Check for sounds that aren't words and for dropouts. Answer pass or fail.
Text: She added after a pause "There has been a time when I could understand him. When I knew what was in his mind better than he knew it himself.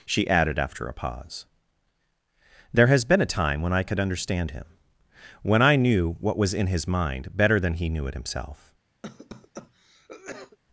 fail